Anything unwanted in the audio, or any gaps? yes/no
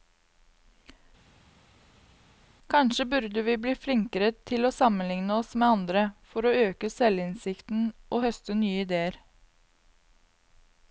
no